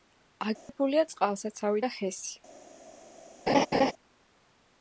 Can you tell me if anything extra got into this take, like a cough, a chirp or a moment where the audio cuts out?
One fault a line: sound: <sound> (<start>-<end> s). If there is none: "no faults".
sound: dropout (0.6-0.7 s)
sound: laugh (3.5-3.9 s)